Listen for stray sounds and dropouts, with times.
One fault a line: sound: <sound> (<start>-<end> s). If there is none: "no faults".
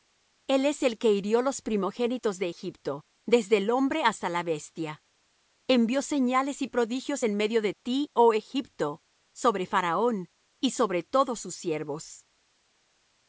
no faults